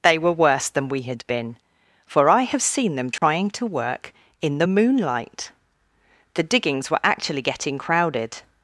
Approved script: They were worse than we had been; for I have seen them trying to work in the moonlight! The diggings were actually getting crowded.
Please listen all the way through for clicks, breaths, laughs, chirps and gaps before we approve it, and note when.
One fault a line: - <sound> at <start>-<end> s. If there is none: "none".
- dropout at 3.2-3.2 s